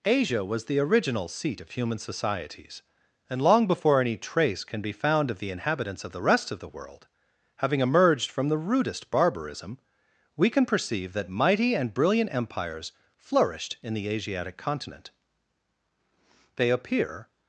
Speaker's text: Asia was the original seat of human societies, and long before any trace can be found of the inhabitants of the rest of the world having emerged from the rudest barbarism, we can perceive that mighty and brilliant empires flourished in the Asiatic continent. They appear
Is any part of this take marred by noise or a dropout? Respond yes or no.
no